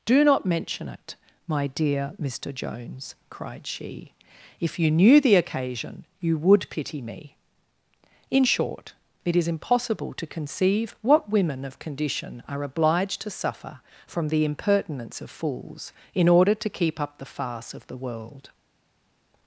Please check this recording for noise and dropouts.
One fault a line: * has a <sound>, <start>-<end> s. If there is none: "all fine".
all fine